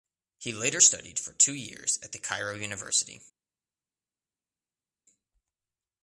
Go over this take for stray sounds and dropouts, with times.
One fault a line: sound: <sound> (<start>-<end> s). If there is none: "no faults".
no faults